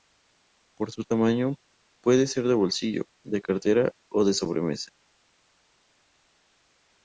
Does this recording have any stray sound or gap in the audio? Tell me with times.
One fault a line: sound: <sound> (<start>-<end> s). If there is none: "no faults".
no faults